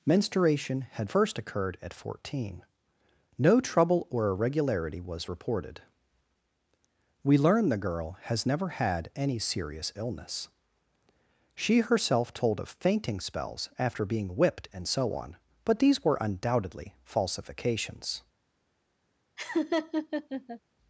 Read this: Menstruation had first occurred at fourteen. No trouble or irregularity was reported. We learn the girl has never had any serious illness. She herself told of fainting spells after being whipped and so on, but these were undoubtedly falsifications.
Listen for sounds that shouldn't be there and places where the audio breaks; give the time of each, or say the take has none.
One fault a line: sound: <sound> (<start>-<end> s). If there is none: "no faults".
sound: laugh (19.4-20.6 s)